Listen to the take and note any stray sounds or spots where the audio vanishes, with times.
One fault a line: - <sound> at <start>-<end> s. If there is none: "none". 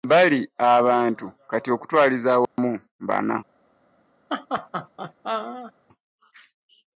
- dropout at 2.5-2.6 s
- laugh at 4.3-5.7 s